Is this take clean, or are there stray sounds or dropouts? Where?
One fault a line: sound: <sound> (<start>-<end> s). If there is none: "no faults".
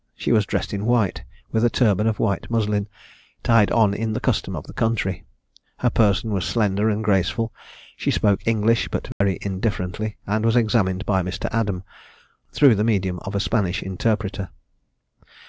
sound: dropout (9.1-9.2 s)